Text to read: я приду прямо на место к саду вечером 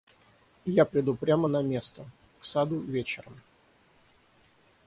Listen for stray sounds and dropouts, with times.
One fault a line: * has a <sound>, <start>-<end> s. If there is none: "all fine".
all fine